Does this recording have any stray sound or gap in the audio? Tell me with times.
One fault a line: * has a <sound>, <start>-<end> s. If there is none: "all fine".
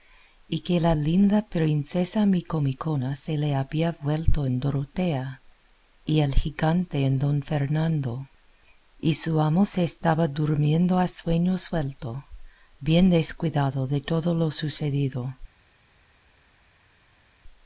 all fine